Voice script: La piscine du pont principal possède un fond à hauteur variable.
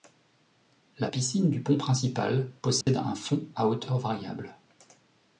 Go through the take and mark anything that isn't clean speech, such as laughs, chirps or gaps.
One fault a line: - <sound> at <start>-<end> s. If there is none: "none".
- dropout at 2.8-2.9 s